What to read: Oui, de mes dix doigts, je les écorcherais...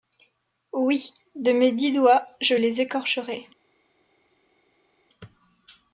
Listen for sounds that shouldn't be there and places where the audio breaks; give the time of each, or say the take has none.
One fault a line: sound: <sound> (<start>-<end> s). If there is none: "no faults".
no faults